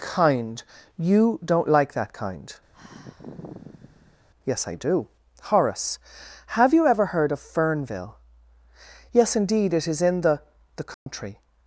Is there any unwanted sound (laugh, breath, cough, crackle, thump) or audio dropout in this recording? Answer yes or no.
yes